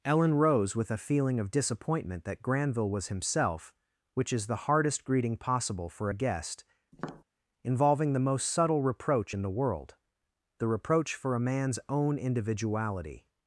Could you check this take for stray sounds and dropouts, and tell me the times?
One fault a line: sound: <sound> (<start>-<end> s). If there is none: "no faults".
sound: tap (6.9-7.2 s)